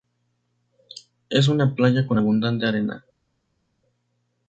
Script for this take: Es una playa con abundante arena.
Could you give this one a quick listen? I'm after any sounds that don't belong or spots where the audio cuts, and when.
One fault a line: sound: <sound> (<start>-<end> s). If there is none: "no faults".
no faults